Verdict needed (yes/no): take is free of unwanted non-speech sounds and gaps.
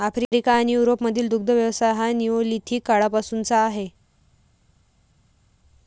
yes